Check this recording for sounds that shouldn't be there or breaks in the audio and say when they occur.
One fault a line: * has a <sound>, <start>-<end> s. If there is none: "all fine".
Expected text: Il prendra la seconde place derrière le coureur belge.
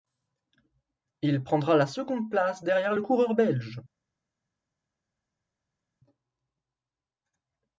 all fine